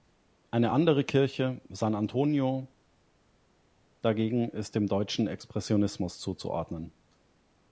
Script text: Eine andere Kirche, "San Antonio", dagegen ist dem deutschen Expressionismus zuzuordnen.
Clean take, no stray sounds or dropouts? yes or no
yes